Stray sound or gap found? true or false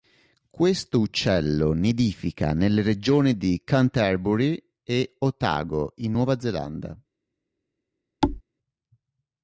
true